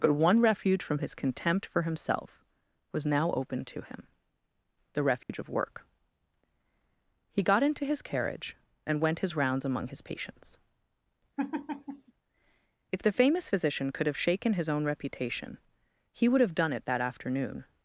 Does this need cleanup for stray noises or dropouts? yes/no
yes